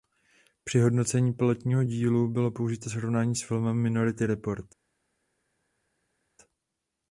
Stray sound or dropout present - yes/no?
no